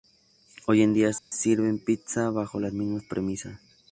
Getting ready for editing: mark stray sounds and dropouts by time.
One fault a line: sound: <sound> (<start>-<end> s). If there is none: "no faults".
sound: dropout (1.2-1.3 s)